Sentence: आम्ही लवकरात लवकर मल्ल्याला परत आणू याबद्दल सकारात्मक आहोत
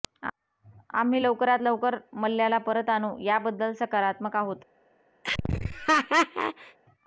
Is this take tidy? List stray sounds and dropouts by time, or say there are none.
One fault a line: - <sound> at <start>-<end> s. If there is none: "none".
- laugh at 5.2-6.8 s